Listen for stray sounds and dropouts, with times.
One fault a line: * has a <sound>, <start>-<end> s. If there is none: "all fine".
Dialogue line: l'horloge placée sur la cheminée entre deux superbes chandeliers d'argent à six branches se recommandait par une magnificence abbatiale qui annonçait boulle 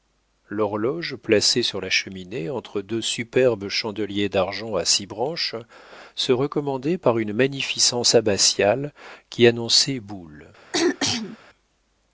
* has a throat clearing, 10.7-11.4 s